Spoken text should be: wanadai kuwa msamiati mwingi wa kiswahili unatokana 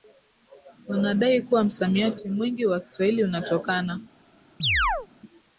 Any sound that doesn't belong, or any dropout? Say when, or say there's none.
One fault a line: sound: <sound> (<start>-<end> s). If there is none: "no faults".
sound: chirp (4.6-5.1 s)